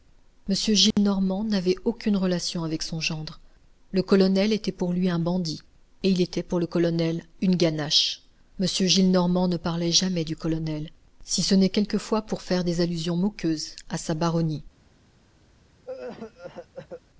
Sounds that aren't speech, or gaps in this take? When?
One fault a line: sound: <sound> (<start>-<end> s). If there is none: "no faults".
sound: dropout (0.9-1.0 s)
sound: cough (15.8-17.0 s)